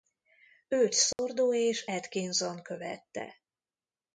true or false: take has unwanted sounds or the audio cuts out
true